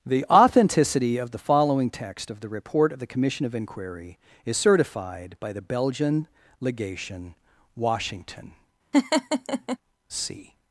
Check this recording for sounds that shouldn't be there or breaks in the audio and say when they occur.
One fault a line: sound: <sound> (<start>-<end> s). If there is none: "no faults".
sound: laugh (8.9-9.8 s)